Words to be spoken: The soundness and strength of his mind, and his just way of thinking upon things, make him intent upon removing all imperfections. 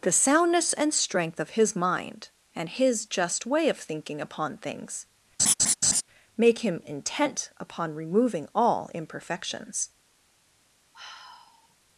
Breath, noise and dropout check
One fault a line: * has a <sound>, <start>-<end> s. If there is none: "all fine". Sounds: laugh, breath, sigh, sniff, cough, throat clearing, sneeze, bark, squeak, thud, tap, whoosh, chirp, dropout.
* has a laugh, 5.4-6.0 s
* has a sigh, 10.9-11.8 s